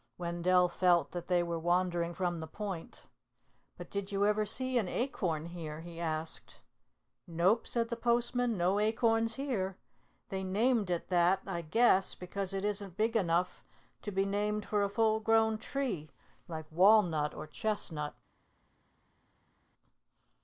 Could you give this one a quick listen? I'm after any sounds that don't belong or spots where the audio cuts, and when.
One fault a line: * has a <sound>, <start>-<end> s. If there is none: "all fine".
all fine